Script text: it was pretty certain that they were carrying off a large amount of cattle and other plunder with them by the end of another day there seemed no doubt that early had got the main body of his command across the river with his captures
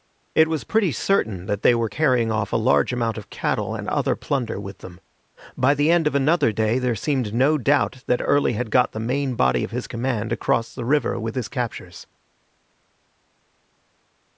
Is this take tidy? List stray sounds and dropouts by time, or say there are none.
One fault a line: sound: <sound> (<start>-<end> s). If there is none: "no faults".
no faults